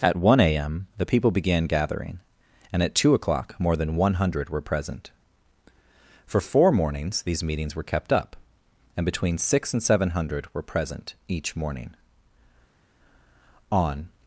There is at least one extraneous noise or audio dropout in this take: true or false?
false